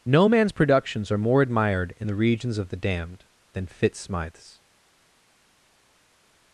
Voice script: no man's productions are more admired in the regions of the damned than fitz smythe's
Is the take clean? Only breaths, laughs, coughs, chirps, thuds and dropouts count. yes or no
yes